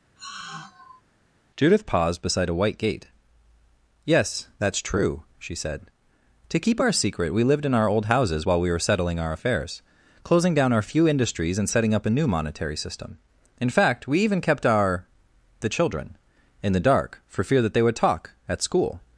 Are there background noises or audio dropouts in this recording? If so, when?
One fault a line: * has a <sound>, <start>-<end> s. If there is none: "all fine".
* has a sigh, 0.2-1.0 s